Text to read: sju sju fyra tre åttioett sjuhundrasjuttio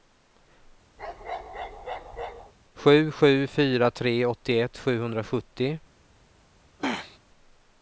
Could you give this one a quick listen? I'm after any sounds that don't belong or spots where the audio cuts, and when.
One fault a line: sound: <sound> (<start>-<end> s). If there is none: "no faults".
sound: bark (1.0-2.5 s)
sound: throat clearing (6.8-7.2 s)